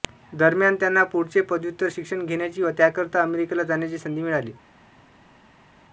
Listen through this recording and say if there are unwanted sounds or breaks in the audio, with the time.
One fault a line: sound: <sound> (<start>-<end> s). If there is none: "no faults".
no faults